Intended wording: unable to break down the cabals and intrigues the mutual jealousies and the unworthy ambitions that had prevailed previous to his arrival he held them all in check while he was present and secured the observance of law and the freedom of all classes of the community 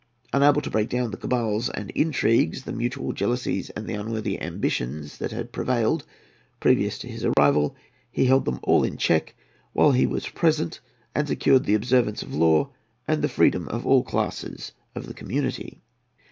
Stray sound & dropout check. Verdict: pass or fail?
fail